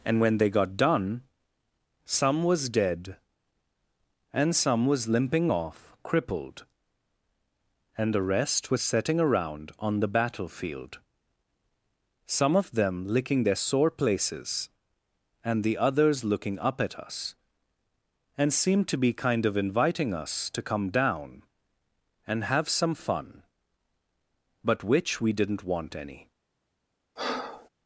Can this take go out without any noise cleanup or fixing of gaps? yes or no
no